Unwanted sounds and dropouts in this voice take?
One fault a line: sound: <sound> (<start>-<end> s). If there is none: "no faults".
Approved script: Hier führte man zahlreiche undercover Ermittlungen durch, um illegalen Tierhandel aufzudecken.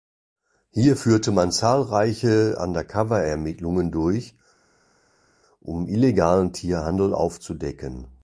no faults